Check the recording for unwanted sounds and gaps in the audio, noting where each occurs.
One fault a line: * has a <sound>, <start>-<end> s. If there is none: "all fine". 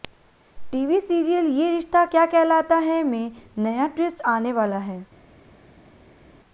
all fine